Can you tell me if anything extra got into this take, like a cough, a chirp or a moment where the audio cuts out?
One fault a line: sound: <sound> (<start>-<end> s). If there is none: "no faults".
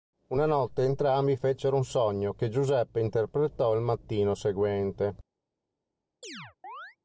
sound: chirp (6.2-7.0 s)